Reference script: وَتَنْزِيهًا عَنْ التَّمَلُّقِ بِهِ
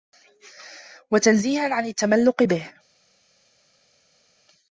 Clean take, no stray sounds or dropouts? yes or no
yes